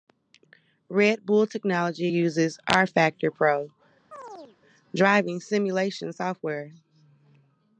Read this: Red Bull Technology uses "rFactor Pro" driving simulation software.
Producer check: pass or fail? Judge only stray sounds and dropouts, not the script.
fail